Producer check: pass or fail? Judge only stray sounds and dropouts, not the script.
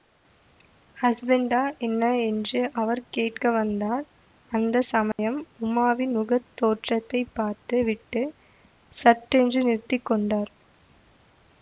fail